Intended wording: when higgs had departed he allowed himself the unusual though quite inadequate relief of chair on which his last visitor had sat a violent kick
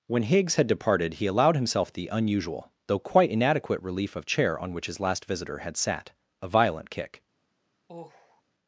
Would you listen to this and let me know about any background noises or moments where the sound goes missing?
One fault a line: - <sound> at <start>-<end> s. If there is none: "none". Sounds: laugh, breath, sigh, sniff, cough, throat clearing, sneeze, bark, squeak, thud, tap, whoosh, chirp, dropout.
- sigh at 7.9-8.4 s